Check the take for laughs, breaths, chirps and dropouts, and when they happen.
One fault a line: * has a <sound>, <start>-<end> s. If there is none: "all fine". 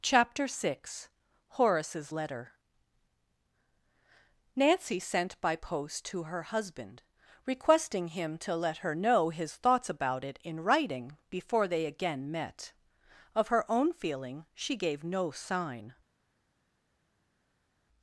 all fine